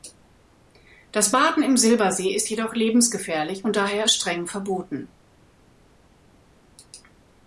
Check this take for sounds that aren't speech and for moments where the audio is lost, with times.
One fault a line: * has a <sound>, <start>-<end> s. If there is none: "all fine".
all fine